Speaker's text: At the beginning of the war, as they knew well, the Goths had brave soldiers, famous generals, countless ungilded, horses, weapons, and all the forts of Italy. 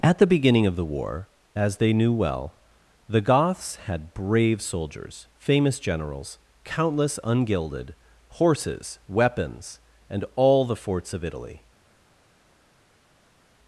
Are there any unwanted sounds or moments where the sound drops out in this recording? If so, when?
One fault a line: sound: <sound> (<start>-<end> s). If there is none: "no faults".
no faults